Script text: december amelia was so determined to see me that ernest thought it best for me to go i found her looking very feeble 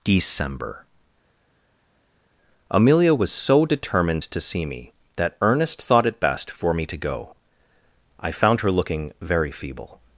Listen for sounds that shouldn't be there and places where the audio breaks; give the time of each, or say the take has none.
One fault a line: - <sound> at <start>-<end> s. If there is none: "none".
none